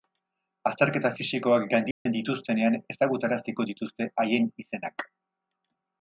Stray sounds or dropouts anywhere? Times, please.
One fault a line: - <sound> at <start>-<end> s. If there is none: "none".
- dropout at 1.9-2.1 s